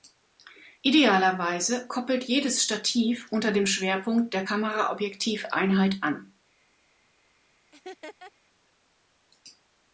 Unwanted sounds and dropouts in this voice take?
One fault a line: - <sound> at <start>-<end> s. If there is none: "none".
- laugh at 7.7-8.3 s